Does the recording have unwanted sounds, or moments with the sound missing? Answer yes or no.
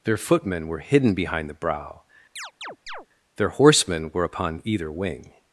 yes